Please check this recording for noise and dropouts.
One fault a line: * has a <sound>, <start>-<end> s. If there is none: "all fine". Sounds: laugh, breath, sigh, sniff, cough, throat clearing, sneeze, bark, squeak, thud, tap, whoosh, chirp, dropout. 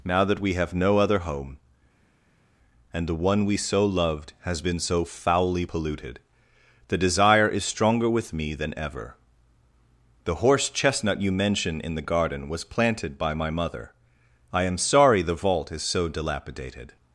all fine